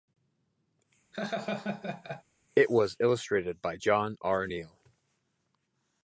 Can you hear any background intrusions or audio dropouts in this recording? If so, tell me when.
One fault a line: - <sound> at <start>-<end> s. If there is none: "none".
- laugh at 1.1-2.2 s